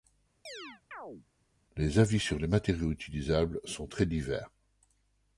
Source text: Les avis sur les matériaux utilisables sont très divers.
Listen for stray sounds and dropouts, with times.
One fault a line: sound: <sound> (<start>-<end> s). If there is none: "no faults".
sound: chirp (0.5-1.3 s)